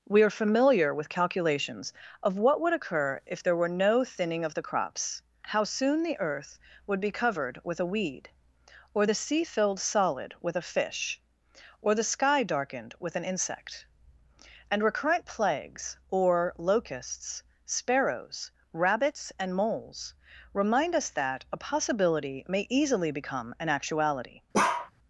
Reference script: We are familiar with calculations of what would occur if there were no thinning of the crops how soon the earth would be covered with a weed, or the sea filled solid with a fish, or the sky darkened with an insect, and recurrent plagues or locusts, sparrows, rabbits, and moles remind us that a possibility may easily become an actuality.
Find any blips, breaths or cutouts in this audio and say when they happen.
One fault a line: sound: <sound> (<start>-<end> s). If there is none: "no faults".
sound: bark (24.5-24.9 s)